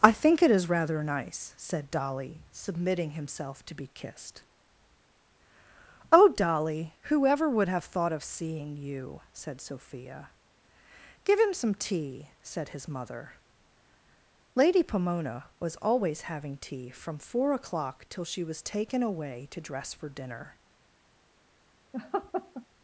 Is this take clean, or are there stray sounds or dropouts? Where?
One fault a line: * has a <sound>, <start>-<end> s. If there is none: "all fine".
* has a laugh, 21.9-22.7 s